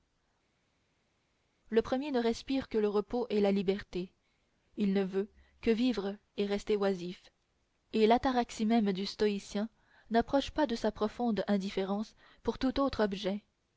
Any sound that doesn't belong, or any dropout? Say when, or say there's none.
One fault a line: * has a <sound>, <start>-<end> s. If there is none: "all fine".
all fine